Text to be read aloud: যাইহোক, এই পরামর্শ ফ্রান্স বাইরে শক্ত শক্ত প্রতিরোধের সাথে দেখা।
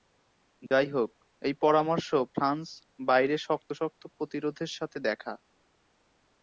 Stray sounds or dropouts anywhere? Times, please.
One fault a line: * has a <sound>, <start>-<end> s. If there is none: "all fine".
* has a dropout, 0.7-0.7 s